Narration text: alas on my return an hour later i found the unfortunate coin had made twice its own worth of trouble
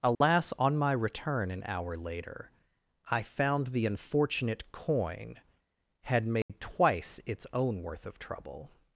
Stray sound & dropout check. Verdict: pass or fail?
fail